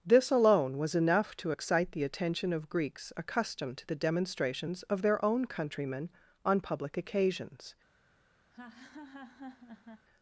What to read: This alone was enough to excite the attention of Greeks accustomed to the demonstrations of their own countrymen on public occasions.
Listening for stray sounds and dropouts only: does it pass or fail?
fail